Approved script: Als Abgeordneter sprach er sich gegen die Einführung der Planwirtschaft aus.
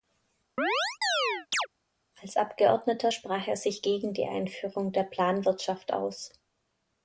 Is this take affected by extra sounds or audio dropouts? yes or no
yes